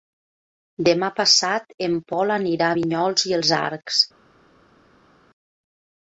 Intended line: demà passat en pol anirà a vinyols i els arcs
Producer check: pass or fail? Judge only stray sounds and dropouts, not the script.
pass